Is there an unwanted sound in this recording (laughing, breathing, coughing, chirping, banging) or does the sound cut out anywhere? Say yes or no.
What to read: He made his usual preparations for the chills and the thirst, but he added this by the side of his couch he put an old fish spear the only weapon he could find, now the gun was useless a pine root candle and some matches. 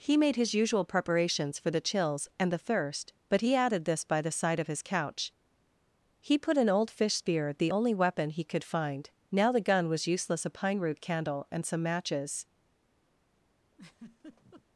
yes